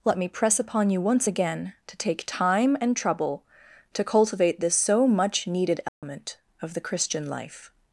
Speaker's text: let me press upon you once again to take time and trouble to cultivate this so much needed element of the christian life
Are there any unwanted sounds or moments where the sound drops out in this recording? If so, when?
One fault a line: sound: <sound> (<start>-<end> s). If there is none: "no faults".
sound: dropout (5.9-6.0 s)